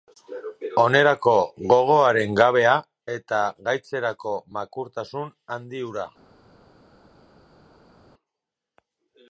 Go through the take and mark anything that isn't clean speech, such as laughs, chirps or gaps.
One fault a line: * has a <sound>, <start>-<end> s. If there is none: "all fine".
all fine